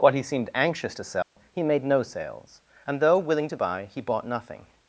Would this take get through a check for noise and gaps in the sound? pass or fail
fail